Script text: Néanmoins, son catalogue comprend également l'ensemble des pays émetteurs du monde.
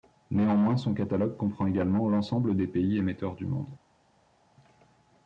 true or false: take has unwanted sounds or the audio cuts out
false